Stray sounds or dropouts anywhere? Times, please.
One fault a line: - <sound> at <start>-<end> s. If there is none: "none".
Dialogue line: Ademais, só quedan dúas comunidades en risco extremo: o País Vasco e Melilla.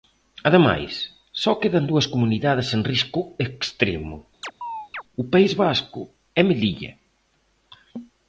- chirp at 4.4-5.0 s